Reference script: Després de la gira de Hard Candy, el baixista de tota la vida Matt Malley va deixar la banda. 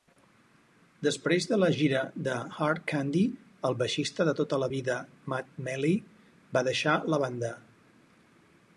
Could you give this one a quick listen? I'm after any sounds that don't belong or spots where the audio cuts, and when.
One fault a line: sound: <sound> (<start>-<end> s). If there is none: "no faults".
no faults